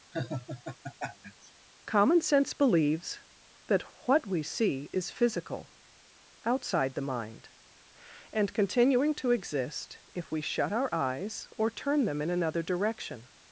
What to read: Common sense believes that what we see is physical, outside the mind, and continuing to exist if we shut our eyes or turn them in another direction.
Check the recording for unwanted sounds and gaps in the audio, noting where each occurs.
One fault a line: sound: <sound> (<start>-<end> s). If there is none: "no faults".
sound: laugh (0.1-1.5 s)